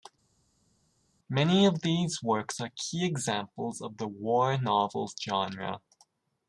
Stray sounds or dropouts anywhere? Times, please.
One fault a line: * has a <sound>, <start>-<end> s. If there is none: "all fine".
all fine